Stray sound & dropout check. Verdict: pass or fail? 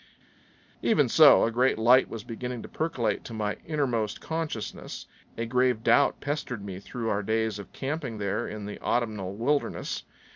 pass